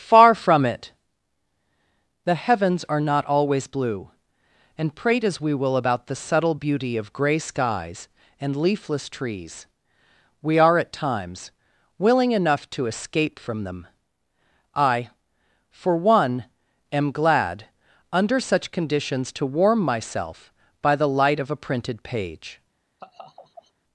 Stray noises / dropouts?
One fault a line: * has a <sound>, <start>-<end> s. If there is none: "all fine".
* has a laugh, 23.0-23.7 s